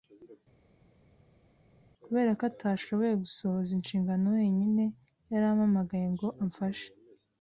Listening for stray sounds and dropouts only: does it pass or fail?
pass